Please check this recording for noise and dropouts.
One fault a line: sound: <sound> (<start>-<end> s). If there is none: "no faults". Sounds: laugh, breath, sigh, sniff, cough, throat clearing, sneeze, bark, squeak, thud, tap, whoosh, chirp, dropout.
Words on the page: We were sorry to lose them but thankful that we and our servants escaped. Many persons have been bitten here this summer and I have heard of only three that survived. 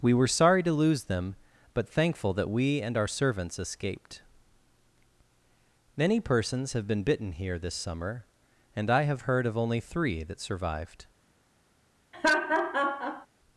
sound: laugh (12.1-13.3 s)